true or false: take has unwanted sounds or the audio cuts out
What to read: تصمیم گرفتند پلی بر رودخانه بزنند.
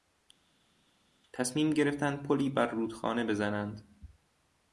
false